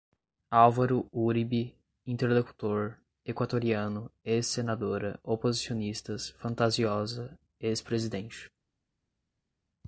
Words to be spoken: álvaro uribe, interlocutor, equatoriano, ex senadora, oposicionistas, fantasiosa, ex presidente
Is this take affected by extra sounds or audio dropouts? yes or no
no